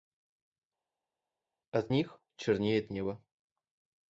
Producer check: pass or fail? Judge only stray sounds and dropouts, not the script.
pass